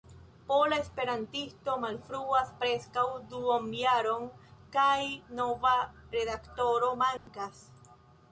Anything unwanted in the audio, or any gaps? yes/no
yes